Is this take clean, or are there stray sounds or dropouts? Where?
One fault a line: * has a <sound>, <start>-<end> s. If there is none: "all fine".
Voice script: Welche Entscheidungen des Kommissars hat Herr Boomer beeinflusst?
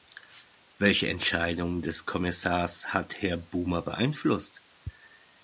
all fine